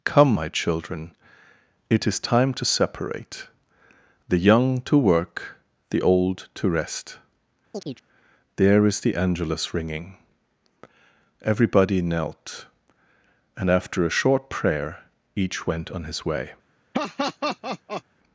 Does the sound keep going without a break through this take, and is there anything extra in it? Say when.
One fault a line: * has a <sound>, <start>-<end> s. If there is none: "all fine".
* has a chirp, 7.7-8.0 s
* has a laugh, 16.9-18.0 s